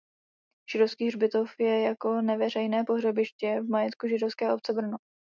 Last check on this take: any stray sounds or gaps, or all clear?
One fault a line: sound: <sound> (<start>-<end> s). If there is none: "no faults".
no faults